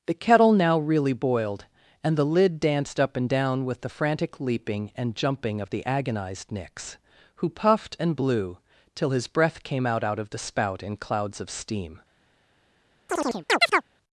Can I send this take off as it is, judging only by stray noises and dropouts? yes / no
no